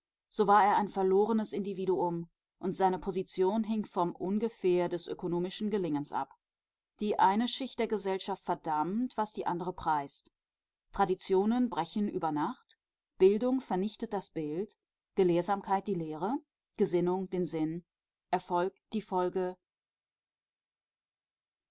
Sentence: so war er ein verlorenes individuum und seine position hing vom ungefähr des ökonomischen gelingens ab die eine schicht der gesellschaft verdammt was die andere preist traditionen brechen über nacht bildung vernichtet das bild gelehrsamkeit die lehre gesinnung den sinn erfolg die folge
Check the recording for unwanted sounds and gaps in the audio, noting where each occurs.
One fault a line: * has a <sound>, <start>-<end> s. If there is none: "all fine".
all fine